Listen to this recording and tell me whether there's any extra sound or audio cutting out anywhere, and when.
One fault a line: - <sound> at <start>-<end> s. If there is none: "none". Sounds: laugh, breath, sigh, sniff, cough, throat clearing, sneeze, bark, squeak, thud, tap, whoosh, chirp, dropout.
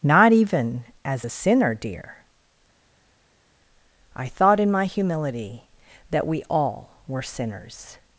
none